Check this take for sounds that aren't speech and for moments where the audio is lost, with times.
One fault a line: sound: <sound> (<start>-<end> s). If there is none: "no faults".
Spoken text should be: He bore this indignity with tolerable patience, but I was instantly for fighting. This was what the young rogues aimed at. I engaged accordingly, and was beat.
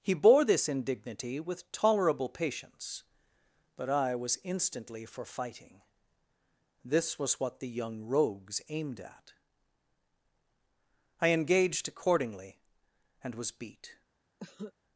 sound: cough (14.4-14.7 s)